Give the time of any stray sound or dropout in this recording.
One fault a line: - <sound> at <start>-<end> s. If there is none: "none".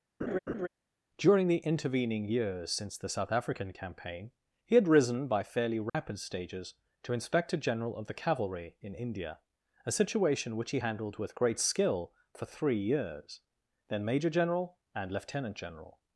- laugh at 0.2-0.7 s
- dropout at 5.9-5.9 s